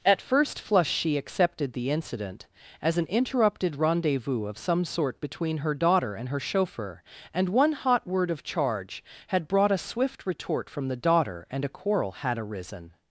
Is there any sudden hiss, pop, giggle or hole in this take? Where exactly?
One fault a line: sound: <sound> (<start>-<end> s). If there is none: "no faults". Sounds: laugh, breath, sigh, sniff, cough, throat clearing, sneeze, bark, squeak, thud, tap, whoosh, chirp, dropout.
no faults